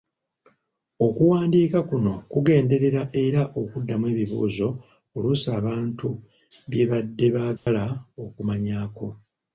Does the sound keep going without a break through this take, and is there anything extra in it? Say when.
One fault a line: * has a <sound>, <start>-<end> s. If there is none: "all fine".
* has a dropout, 7.6-7.7 s